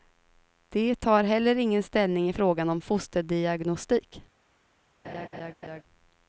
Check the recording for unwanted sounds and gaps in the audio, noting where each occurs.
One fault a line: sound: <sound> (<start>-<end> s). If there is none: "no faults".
sound: laugh (5.0-5.8 s)